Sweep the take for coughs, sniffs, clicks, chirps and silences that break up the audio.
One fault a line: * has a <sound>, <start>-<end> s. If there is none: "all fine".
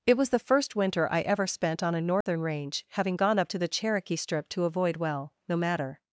* has a dropout, 2.2-2.3 s